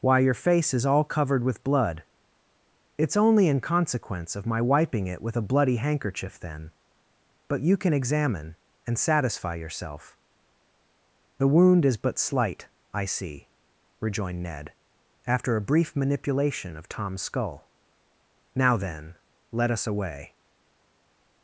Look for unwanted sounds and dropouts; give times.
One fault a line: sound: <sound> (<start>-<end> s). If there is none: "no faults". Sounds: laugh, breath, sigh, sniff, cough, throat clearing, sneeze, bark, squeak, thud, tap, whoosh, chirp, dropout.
no faults